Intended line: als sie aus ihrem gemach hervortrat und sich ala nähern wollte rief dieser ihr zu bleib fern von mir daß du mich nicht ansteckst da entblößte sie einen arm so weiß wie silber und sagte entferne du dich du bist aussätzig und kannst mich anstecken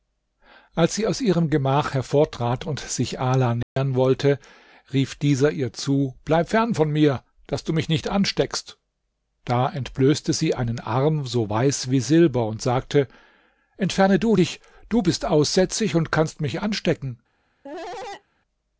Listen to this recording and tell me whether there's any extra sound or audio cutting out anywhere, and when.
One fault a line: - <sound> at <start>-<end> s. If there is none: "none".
- dropout at 3.6-3.8 s
- cough at 17.6-18.2 s